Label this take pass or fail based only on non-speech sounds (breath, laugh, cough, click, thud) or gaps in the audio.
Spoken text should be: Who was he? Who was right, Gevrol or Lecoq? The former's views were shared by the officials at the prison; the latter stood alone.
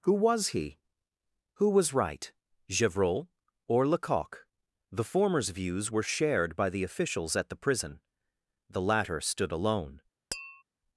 fail